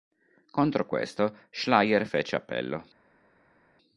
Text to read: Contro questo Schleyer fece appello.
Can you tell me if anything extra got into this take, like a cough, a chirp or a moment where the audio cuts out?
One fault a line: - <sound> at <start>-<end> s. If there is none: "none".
none